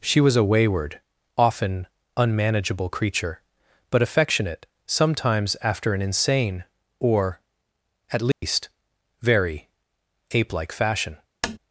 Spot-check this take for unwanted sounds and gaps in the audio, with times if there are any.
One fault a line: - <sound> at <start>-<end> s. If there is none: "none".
- dropout at 8.3-8.4 s
- tap at 11.4-11.6 s